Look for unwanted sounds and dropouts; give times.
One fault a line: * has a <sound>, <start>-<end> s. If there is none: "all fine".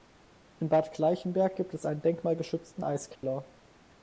* has a dropout, 3.2-3.2 s